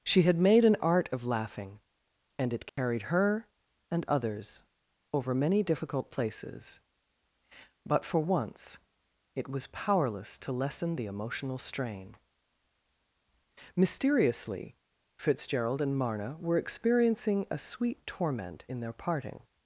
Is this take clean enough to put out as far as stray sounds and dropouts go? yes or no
no